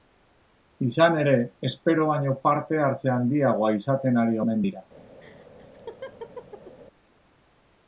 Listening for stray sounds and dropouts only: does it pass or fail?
fail